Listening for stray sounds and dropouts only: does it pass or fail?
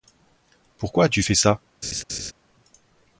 fail